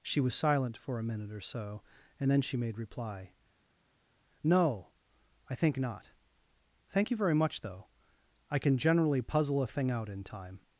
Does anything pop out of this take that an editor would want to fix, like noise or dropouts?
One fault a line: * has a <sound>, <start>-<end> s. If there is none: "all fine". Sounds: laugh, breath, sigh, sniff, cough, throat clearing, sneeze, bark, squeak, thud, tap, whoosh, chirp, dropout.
all fine